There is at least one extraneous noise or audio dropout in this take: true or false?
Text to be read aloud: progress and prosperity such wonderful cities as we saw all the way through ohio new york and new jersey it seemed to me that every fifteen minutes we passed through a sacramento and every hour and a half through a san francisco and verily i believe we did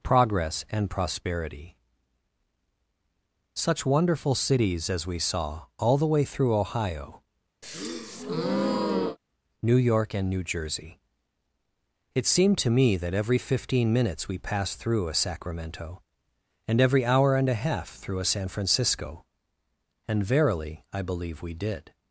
true